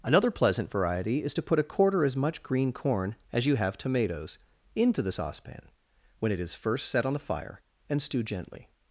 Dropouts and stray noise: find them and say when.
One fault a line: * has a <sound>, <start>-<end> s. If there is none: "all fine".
all fine